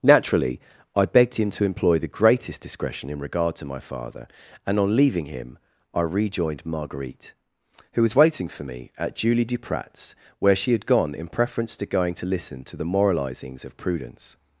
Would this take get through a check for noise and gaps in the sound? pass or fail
pass